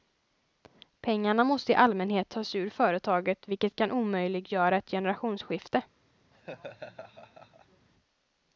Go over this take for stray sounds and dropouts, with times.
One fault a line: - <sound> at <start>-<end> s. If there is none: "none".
- laugh at 6.3-7.9 s